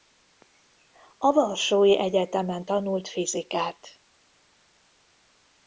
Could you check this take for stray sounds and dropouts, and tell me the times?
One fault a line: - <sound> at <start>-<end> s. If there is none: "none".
none